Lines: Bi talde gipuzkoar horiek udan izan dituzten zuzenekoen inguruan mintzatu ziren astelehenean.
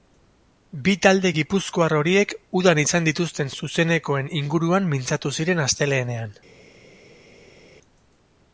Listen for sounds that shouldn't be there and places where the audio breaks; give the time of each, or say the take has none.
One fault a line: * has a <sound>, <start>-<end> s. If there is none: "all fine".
all fine